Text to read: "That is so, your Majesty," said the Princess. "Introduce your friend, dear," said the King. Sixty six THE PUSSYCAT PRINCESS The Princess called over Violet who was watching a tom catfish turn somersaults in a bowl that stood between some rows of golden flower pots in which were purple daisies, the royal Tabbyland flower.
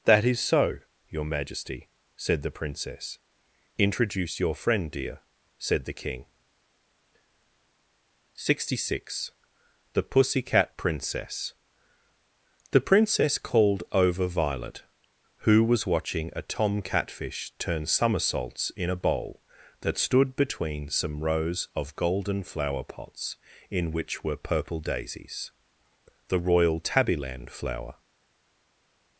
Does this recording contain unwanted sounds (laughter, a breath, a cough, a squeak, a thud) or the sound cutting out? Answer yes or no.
no